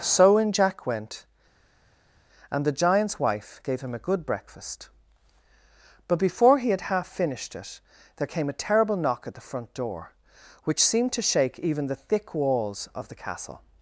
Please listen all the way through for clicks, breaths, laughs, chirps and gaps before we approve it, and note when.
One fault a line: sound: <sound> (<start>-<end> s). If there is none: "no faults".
no faults